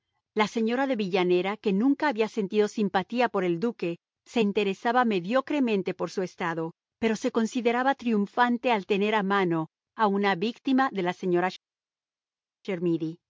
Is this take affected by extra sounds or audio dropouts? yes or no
no